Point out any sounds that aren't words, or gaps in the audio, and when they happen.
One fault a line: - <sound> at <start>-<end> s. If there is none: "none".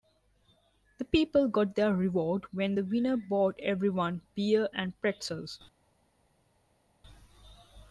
none